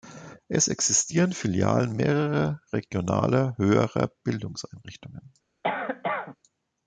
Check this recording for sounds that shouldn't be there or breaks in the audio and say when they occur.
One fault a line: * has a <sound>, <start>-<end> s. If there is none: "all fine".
* has a cough, 5.6-6.4 s